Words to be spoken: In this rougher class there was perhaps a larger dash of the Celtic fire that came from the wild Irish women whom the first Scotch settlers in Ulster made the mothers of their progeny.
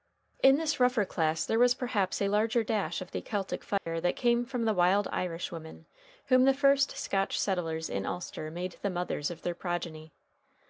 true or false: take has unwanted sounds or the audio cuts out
true